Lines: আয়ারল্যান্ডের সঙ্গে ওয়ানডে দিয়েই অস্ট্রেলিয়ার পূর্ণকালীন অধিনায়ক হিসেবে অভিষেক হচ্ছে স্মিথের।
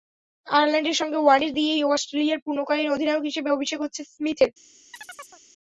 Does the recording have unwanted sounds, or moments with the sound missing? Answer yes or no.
yes